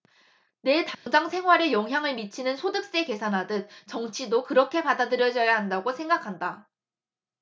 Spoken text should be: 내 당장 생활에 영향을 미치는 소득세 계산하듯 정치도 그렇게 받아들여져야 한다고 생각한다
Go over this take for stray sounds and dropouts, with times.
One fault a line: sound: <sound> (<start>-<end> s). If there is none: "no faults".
sound: dropout (0.9-1.1 s)